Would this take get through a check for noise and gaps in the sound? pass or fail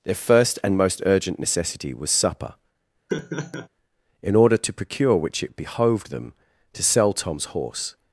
fail